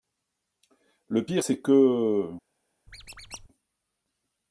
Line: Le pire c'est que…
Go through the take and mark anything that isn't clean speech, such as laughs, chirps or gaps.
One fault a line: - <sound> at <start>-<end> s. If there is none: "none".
- squeak at 2.9-3.5 s